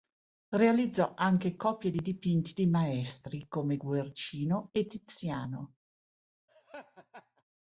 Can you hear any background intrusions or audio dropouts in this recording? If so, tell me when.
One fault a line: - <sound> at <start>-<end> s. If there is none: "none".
- laugh at 6.5-7.4 s